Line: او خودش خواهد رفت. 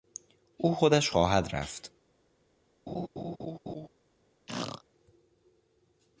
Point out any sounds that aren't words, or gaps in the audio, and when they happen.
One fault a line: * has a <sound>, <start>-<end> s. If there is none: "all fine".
* has a laugh, 2.9-3.9 s
* has a throat clearing, 4.5-4.8 s